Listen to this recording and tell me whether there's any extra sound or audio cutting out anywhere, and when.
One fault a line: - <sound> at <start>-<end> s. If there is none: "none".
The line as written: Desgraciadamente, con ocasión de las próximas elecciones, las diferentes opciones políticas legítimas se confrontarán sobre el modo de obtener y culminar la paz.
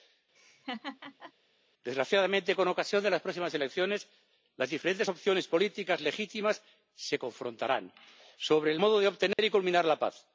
- laugh at 0.4-1.3 s
- dropout at 9.3-9.4 s